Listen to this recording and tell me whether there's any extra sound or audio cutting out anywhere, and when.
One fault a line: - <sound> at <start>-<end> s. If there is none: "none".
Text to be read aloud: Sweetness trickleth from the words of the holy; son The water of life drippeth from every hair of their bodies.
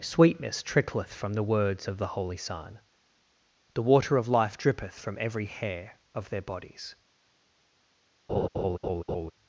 - laugh at 8.3-9.3 s